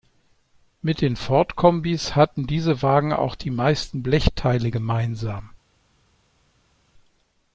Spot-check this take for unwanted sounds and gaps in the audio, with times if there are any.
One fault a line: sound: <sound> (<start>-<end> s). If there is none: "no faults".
no faults